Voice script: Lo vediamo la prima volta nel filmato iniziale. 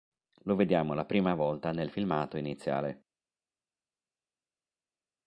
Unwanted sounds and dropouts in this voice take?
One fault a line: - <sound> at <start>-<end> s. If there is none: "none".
none